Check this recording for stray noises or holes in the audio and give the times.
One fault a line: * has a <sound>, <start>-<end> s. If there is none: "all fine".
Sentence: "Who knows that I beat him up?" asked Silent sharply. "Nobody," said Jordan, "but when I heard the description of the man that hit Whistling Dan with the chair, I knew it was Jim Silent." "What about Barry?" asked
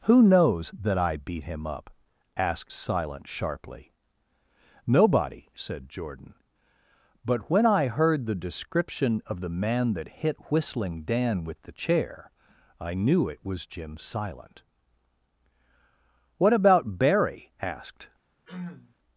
* has a throat clearing, 18.4-18.9 s